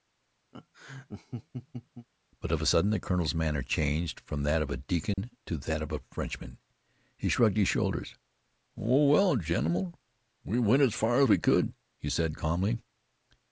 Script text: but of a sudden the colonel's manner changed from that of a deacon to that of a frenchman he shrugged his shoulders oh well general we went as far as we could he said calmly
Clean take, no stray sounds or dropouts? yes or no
no